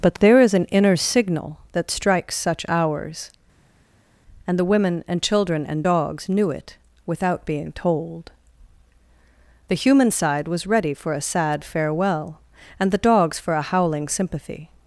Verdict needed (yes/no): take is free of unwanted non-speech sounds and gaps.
yes